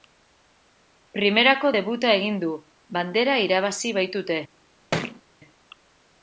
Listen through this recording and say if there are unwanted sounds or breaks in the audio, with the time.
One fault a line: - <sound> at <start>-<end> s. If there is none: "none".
- thud at 4.9-5.2 s